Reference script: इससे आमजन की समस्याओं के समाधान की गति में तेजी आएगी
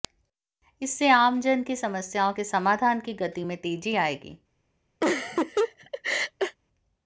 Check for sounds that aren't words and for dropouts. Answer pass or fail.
fail